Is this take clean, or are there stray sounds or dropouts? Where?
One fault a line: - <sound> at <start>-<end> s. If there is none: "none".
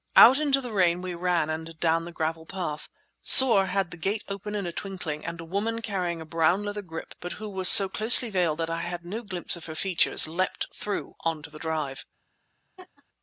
- laugh at 12.8-13.0 s